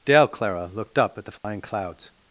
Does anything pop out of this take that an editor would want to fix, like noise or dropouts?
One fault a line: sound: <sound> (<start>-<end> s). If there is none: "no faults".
sound: dropout (1.4-1.4 s)